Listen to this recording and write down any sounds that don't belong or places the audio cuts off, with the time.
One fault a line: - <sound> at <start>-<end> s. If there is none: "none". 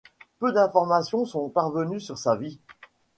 none